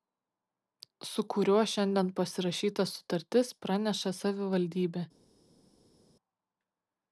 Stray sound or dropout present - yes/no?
no